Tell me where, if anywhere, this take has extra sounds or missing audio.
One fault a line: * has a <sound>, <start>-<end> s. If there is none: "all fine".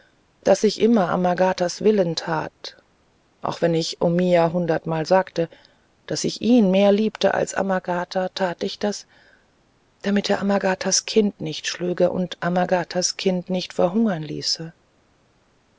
all fine